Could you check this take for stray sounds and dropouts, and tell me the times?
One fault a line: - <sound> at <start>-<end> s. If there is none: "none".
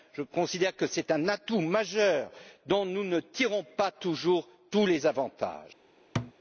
- thud at 6.2-6.3 s